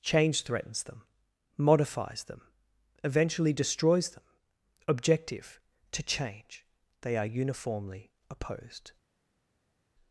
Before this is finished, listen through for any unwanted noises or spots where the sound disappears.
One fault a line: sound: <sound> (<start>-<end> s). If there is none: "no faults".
no faults